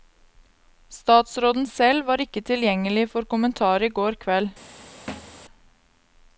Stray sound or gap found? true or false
true